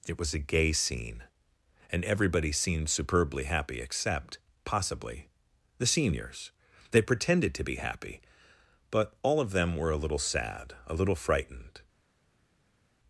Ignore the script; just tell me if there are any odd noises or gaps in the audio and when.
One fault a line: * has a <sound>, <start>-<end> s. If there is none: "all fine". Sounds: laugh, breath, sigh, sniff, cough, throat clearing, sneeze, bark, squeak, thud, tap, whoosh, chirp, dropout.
all fine